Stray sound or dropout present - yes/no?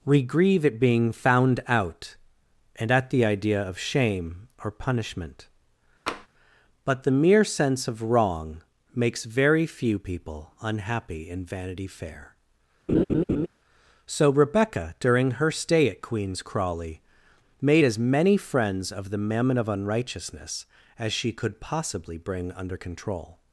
yes